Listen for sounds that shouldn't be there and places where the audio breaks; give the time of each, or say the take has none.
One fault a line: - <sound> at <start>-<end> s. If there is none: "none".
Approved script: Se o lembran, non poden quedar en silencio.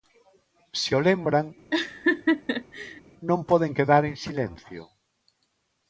- laugh at 1.7-3.0 s